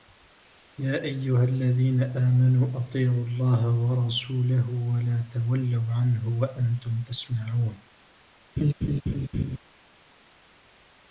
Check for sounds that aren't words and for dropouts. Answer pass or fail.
fail